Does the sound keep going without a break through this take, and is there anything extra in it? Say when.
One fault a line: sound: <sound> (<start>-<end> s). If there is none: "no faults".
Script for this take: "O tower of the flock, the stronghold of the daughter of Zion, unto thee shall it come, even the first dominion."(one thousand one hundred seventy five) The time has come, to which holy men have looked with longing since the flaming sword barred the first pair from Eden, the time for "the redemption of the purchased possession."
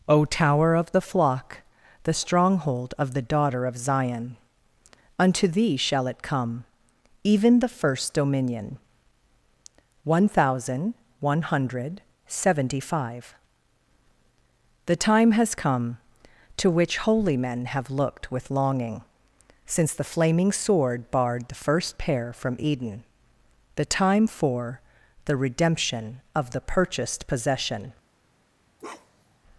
sound: bark (28.8-29.4 s)